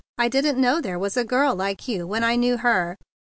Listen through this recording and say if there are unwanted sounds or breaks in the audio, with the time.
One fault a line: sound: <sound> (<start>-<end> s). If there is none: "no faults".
no faults